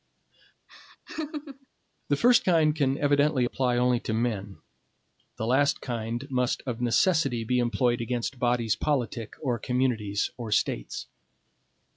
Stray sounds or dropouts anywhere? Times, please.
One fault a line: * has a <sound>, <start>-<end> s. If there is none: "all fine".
* has a laugh, 0.7-1.7 s